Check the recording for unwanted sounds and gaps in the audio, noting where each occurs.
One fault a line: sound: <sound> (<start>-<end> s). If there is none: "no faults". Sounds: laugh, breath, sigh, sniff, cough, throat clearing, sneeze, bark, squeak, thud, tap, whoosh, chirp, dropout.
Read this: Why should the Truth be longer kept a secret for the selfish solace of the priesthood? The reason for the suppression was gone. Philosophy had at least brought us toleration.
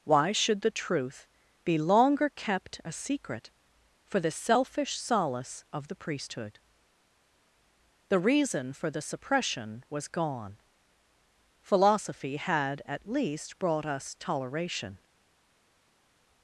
no faults